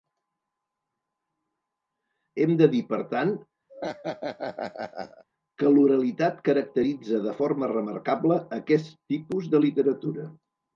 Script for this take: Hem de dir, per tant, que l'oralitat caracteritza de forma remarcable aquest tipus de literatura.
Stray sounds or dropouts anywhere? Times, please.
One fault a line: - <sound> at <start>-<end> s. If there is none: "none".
- laugh at 3.7-5.2 s